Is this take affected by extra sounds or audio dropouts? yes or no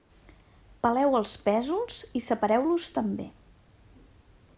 no